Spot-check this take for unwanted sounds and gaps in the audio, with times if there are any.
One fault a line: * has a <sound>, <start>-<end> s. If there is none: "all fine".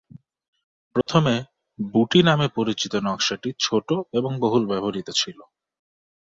* has a dropout, 1.0-1.1 s